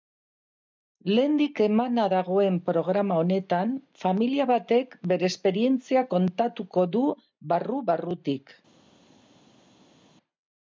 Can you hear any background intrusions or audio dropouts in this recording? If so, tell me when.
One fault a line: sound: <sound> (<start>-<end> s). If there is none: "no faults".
no faults